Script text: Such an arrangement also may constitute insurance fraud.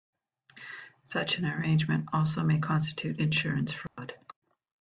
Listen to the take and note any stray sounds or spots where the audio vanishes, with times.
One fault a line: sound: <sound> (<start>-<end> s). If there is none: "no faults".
sound: dropout (3.9-4.0 s)